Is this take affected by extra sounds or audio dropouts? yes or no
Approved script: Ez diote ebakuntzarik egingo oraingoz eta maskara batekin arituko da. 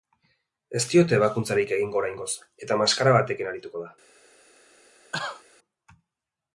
yes